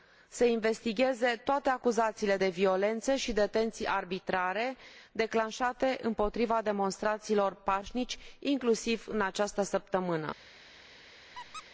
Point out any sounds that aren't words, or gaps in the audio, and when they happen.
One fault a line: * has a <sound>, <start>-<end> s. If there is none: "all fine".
* has a squeak, 11.3-11.6 s